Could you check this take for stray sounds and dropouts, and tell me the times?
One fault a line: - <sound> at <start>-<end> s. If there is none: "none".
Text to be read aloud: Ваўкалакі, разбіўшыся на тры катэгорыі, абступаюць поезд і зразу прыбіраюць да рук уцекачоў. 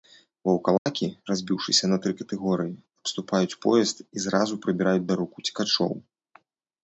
- dropout at 0.8-0.9 s